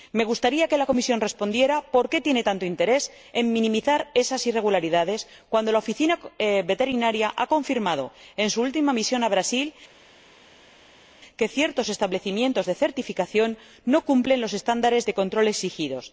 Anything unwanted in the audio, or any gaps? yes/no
no